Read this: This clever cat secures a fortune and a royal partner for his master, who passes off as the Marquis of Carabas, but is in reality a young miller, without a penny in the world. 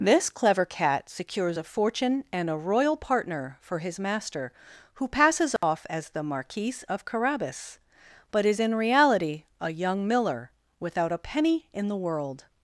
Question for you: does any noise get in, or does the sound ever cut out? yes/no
yes